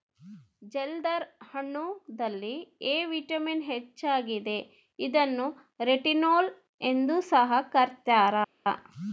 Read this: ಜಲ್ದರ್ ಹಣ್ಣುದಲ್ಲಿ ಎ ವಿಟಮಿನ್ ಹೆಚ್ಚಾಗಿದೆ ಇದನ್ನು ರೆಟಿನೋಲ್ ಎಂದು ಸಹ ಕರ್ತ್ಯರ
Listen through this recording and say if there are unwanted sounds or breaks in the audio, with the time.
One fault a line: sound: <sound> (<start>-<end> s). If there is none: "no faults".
no faults